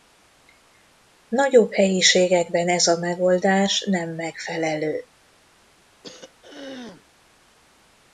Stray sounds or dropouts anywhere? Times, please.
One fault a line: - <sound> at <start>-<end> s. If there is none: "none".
- throat clearing at 6.0-7.1 s